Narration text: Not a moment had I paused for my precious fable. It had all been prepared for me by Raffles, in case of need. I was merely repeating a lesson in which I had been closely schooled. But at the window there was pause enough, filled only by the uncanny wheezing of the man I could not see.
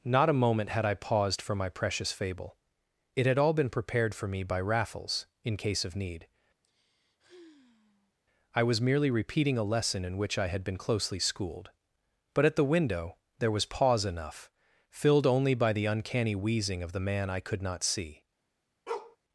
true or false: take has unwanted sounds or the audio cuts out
true